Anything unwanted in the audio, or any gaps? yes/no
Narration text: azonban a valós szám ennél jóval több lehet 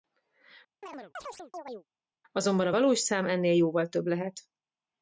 yes